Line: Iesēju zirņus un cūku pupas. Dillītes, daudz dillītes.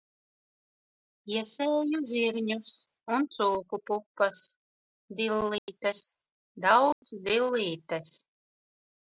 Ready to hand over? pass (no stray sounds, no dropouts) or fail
fail